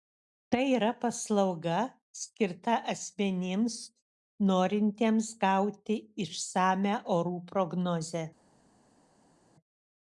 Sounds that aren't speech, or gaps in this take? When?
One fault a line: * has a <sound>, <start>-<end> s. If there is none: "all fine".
all fine